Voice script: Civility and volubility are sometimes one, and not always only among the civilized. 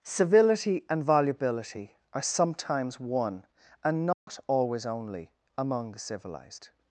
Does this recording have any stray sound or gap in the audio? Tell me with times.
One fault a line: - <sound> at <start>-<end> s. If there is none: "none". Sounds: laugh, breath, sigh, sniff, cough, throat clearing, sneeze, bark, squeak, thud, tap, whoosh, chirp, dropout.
- dropout at 4.1-4.3 s